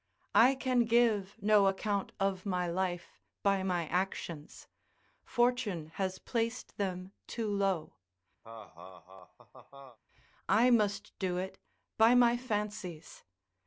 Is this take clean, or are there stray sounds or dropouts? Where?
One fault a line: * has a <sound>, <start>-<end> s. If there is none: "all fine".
* has a laugh, 8.4-10.0 s